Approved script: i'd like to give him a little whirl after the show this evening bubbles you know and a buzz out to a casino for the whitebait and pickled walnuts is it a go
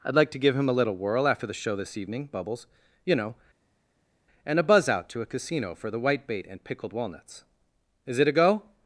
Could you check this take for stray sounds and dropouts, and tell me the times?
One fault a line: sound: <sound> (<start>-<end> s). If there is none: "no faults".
no faults